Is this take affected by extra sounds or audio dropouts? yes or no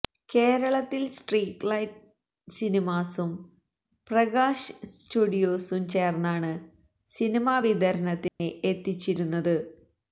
yes